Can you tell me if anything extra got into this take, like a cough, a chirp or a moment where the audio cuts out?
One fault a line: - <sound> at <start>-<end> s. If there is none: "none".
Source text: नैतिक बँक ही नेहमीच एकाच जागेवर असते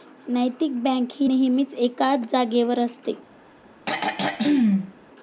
- throat clearing at 3.9-4.9 s